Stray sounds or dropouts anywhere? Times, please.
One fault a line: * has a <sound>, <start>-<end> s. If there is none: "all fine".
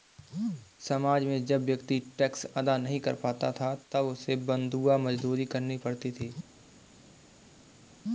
all fine